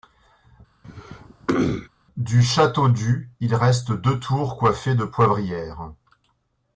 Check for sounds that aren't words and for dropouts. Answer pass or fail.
fail